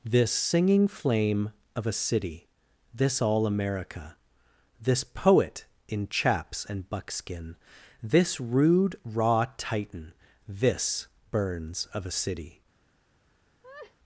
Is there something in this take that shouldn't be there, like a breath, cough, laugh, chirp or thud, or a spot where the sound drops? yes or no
yes